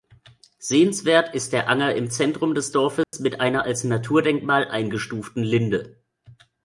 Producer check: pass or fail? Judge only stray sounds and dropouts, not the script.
fail